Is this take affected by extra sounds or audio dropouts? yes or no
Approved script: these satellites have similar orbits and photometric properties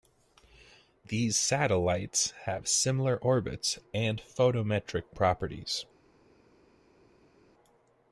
no